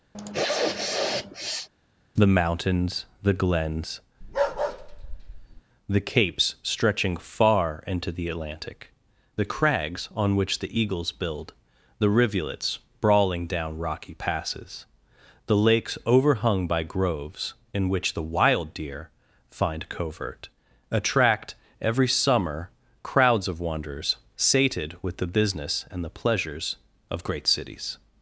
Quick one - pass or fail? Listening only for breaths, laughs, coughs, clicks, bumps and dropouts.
fail